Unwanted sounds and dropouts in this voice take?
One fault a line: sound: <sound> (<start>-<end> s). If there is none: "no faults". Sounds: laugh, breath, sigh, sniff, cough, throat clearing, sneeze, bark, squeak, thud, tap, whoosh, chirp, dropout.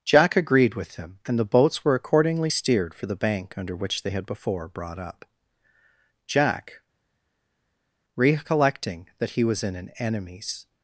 no faults